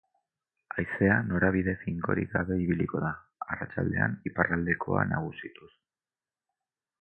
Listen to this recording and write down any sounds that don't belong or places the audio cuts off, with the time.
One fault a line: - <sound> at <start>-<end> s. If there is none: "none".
none